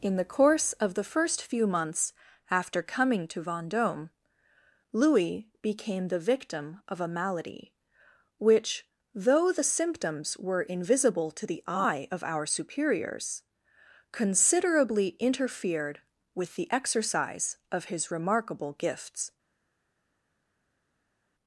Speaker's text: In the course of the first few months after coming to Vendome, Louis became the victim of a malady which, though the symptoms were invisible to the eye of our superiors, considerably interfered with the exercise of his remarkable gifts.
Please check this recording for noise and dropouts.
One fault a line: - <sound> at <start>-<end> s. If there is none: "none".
none